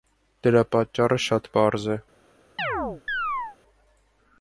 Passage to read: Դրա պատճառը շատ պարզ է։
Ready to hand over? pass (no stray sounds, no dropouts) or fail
fail